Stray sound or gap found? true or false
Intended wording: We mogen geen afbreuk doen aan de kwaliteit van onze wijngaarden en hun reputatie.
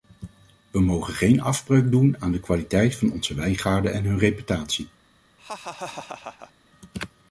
true